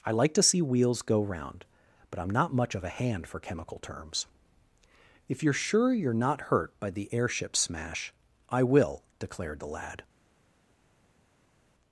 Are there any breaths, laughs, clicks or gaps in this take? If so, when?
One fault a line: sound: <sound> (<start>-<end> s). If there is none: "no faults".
no faults